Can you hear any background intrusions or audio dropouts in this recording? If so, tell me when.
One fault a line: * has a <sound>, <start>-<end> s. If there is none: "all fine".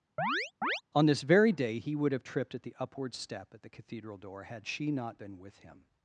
* has a chirp, 0.2-0.8 s